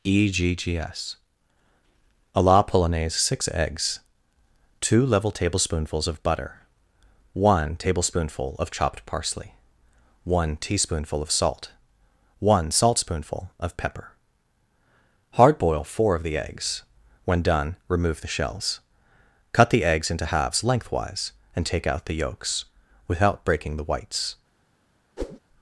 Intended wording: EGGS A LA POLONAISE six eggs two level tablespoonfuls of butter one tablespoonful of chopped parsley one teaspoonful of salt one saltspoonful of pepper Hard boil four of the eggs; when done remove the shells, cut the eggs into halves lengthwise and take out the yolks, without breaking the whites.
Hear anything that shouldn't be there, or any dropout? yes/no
yes